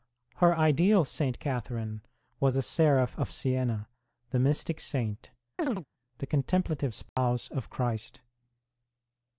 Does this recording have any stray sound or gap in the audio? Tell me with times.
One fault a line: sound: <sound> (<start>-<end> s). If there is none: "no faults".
sound: chirp (5.6-5.9 s)
sound: dropout (7.1-7.2 s)